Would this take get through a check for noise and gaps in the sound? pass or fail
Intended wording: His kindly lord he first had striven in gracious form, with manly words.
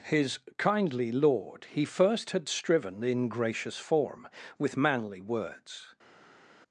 pass